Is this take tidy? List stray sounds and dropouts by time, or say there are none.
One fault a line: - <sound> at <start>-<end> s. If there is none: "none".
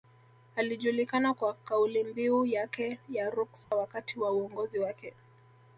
- dropout at 3.6-3.7 s